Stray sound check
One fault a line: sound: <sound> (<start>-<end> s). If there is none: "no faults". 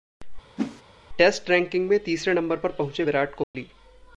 sound: whoosh (0.6-0.8 s)
sound: dropout (3.4-3.5 s)